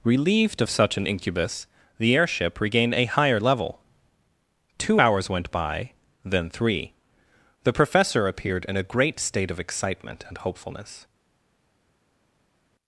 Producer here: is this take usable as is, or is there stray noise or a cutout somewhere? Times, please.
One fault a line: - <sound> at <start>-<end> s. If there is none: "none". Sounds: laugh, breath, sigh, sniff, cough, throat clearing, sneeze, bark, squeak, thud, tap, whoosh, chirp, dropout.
none